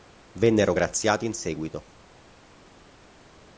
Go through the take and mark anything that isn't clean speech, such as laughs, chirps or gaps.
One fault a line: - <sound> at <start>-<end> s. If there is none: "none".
none